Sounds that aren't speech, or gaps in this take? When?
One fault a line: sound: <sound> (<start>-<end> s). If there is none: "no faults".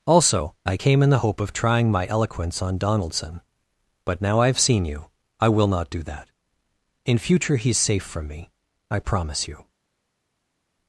no faults